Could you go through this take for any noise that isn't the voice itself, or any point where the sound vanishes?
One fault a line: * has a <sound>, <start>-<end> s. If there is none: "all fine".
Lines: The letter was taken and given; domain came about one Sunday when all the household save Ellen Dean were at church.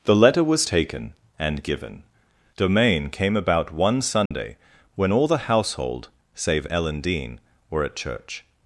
* has a dropout, 4.3-4.3 s